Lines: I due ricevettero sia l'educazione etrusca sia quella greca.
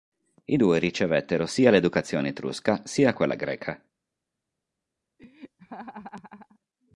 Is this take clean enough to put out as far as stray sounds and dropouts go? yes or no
no